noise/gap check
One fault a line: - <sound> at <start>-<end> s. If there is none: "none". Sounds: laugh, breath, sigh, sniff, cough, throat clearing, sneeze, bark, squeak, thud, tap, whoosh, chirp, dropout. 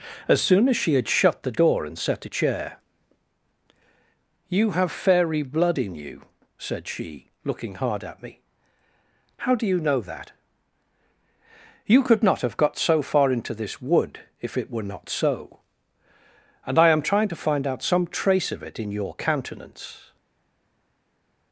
none